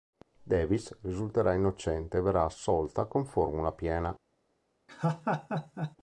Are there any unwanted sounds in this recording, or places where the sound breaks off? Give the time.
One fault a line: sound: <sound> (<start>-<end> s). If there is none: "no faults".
sound: laugh (4.9-6.0 s)